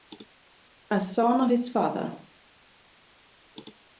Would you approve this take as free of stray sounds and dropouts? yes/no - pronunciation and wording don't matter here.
yes